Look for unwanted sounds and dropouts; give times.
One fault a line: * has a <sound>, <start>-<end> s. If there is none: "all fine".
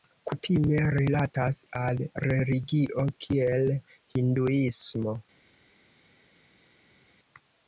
all fine